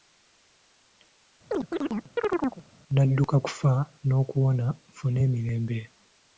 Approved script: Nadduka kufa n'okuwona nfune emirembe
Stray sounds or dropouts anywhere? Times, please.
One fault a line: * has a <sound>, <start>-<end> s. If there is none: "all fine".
* has a chirp, 1.5-2.6 s